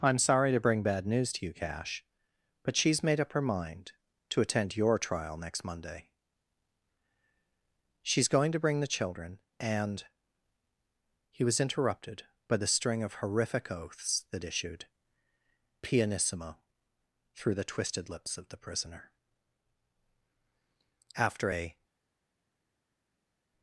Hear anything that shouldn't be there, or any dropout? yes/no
no